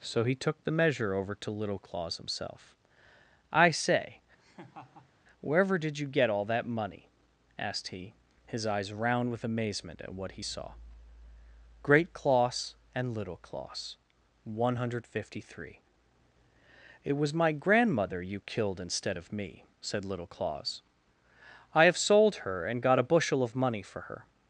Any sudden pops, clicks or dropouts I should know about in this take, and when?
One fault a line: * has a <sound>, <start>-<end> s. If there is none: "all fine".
* has a laugh, 4.4-5.1 s